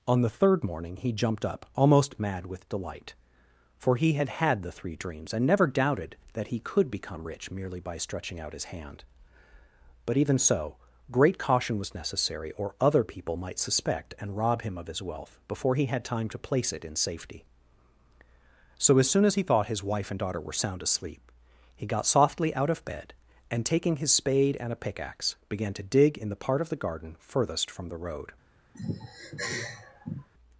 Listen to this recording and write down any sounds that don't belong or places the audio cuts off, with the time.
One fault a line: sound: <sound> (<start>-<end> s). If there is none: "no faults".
sound: sigh (28.7-30.3 s)